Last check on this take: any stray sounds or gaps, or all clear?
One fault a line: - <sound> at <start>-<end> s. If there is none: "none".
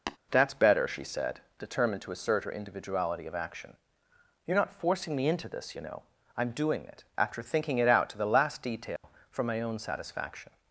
- tap at 0.1-0.2 s
- dropout at 9.0-9.0 s